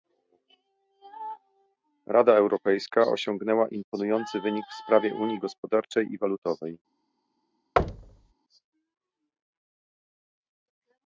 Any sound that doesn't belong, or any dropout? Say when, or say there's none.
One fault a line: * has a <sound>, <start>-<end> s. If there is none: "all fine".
* has a thud, 7.8-8.3 s